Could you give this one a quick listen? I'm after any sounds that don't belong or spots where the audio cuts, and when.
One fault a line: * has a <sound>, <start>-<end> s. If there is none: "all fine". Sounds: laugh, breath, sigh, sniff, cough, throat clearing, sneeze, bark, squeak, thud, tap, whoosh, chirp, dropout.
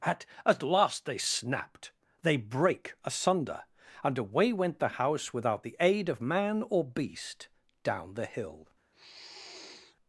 * has a sniff, 8.9-10.0 s